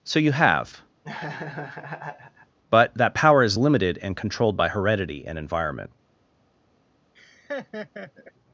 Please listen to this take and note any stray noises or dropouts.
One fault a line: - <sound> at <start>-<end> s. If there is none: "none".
- laugh at 1.0-2.6 s
- laugh at 7.1-8.3 s